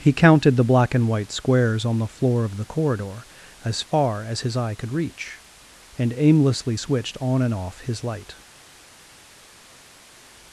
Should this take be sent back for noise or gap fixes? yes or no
no